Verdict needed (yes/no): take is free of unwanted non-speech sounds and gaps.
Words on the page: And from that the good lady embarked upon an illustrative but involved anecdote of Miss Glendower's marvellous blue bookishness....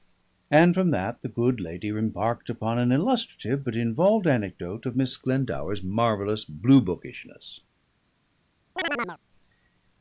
no